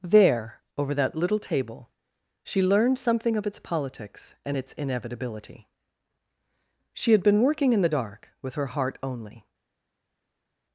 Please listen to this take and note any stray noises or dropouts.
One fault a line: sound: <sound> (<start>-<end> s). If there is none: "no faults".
no faults